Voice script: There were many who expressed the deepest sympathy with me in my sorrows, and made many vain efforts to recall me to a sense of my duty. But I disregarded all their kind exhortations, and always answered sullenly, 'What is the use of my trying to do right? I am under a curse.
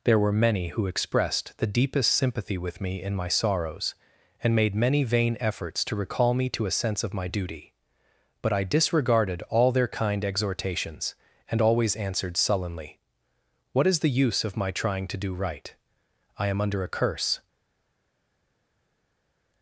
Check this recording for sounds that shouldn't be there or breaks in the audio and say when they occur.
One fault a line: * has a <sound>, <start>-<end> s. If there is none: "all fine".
all fine